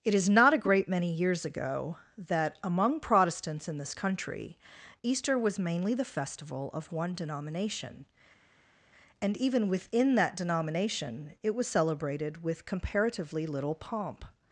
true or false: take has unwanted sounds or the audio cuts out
false